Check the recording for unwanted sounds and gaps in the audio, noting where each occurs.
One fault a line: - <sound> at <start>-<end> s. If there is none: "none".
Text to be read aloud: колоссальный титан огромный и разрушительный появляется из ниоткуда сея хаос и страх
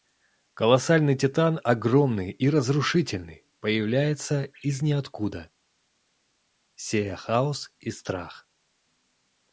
none